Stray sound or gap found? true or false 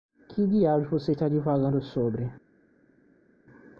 false